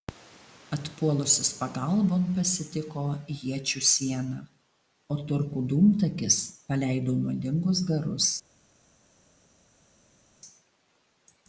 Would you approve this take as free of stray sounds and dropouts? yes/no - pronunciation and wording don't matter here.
yes